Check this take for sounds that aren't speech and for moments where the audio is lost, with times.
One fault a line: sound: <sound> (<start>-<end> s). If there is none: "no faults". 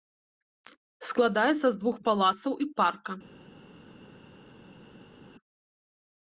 no faults